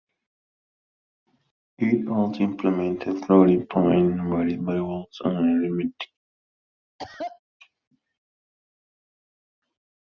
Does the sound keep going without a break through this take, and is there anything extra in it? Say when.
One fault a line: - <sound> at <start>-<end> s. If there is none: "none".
- cough at 7.0-7.4 s